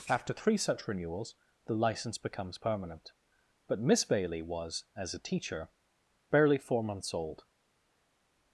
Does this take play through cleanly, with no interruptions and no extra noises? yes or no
yes